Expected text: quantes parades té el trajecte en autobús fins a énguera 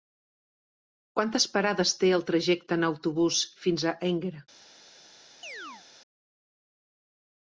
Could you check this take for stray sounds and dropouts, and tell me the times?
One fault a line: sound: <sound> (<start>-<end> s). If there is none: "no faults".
sound: chirp (5.4-5.9 s)